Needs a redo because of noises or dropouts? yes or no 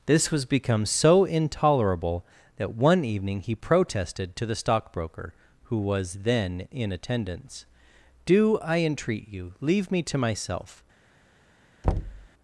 yes